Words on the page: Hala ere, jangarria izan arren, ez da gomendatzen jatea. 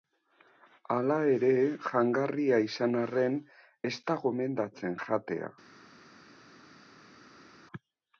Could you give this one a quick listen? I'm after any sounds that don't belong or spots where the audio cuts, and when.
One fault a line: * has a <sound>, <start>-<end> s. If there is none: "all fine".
all fine